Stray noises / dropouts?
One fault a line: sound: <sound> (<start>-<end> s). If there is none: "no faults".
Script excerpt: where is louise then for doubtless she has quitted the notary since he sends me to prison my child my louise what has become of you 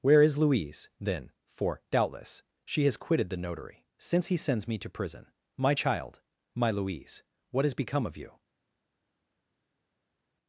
no faults